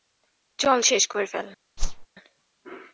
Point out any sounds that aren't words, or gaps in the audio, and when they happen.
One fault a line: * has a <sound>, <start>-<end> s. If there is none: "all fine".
* has a whoosh, 1.8-2.1 s